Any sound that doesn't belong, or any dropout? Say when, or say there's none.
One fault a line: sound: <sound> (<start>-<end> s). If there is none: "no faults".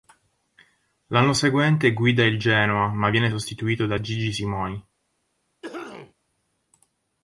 sound: cough (5.6-6.1 s)